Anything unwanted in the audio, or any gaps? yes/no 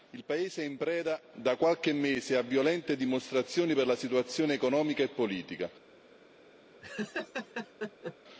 yes